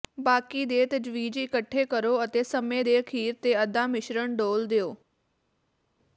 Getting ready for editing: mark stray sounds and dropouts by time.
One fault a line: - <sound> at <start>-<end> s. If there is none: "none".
none